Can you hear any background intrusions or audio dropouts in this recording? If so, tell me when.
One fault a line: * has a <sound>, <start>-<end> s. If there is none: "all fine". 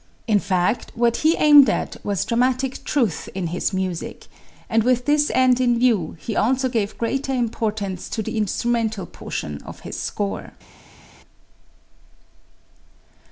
all fine